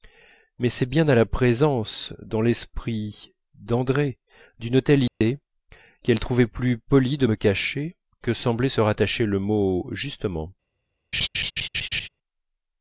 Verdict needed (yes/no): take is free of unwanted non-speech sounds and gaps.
no